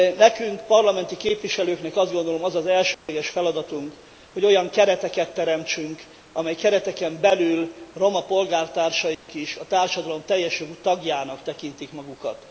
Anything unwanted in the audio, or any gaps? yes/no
yes